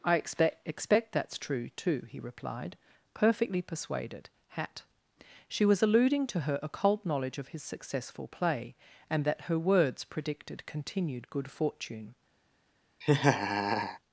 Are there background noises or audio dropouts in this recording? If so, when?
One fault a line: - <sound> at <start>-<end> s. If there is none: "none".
- laugh at 13.0-14.0 s